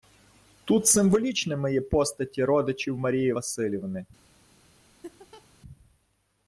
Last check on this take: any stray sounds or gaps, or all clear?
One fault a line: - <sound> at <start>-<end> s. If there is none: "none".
- laugh at 5.0-5.5 s